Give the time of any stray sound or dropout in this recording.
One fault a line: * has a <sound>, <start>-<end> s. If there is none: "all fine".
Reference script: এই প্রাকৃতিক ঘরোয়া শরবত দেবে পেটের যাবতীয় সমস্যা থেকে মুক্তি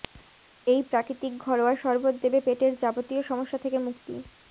all fine